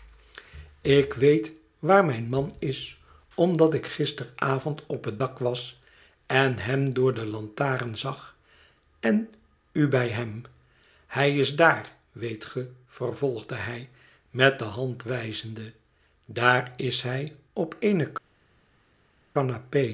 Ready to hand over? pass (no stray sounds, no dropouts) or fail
pass